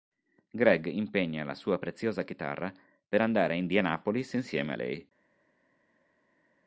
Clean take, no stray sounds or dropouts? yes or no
yes